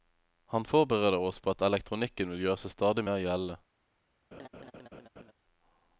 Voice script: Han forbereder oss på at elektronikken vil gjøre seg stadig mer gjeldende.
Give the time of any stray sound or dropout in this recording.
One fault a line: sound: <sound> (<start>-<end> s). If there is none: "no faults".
sound: laugh (4.3-5.3 s)